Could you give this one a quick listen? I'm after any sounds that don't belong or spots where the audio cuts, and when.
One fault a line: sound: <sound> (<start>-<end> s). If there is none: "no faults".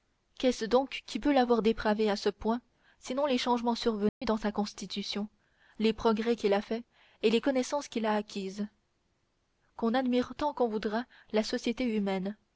sound: dropout (4.1-4.2 s)